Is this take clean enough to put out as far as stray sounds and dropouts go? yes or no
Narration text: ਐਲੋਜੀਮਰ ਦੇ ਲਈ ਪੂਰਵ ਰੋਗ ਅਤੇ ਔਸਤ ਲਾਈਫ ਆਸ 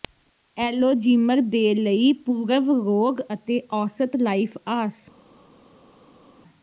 yes